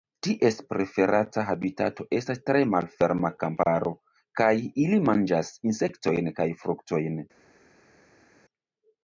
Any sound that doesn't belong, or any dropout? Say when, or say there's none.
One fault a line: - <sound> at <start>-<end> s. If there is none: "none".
none